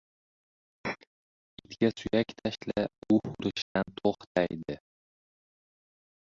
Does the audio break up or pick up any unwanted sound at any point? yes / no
yes